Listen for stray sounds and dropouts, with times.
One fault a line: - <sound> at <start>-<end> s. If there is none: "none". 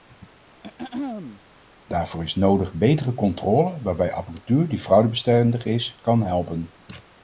- throat clearing at 0.6-1.4 s